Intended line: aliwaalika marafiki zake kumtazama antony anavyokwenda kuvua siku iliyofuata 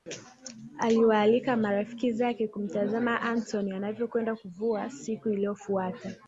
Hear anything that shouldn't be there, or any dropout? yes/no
no